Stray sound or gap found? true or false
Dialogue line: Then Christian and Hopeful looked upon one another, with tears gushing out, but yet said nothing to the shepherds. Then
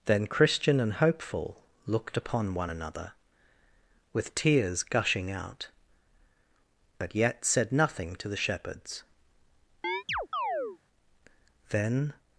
true